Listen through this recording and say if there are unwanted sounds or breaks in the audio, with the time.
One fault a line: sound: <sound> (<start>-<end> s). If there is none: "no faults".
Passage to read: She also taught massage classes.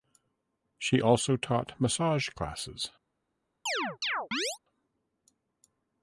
sound: chirp (3.7-4.6 s)